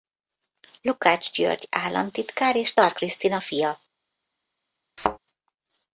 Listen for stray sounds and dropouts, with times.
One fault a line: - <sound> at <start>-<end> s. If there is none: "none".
- thud at 5.0-5.2 s